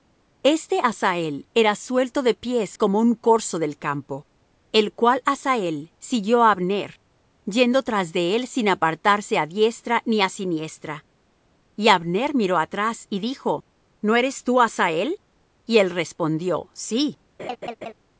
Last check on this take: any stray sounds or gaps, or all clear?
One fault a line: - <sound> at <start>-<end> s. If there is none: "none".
- laugh at 17.4-17.9 s